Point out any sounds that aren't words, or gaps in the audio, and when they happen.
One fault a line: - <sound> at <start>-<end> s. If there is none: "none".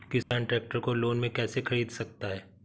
- dropout at 0.2-0.3 s